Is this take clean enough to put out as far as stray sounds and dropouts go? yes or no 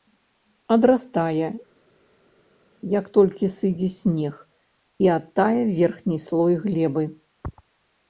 yes